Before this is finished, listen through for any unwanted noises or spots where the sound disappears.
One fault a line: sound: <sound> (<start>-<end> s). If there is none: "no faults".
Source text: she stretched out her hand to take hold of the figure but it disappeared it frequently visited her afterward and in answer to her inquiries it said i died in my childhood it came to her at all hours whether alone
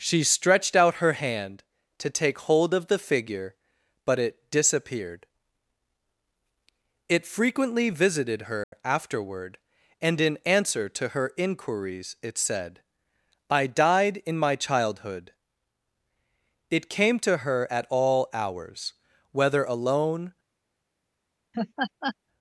sound: dropout (8.6-8.7 s)
sound: laugh (21.5-22.2 s)